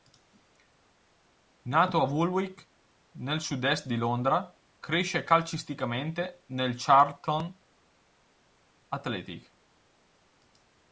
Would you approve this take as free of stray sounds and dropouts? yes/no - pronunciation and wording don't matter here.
yes